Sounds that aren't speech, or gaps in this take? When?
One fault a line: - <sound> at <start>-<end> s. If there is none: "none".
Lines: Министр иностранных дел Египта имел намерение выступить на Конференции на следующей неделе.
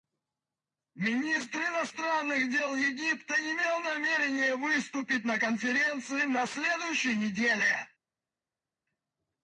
none